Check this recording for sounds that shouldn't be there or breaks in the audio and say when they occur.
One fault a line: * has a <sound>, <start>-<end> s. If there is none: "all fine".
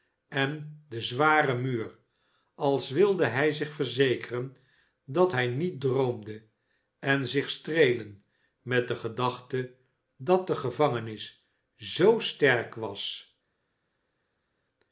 all fine